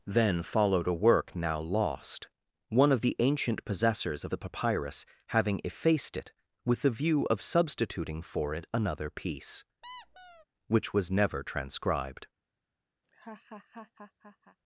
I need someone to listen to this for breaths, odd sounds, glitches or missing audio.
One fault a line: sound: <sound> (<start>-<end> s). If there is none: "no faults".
sound: squeak (9.8-10.5 s)
sound: laugh (13.0-14.6 s)